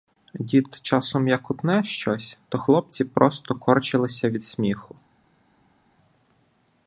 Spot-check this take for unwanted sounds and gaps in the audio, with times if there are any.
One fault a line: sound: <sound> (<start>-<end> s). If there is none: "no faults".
no faults